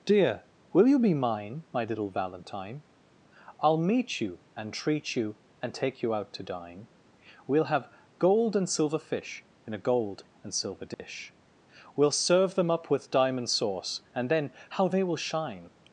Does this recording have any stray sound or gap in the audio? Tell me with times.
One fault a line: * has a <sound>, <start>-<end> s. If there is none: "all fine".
* has a dropout, 10.9-11.0 s